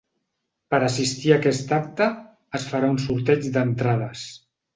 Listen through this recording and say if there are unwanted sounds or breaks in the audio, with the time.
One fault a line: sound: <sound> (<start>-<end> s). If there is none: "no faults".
no faults